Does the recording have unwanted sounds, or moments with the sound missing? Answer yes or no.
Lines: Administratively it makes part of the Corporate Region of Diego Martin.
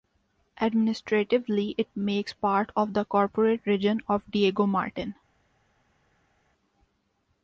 no